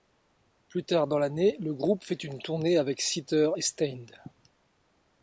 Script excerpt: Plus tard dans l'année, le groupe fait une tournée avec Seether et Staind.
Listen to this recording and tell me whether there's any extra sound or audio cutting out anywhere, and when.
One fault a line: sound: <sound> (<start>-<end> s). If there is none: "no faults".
no faults